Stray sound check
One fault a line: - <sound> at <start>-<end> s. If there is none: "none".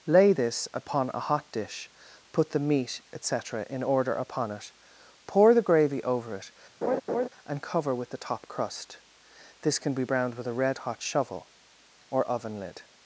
- laugh at 6.8-7.3 s